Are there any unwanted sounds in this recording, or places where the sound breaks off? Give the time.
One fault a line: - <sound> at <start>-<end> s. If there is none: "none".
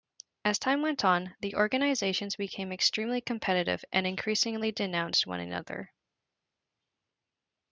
none